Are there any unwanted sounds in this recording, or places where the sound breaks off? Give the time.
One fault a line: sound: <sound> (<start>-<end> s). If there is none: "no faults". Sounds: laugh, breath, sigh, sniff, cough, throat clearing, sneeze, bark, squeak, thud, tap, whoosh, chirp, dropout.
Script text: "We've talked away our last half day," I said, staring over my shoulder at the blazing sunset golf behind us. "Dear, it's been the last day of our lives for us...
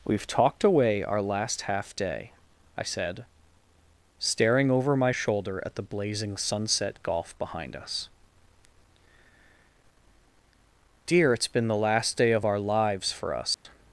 sound: dropout (13.5-13.6 s)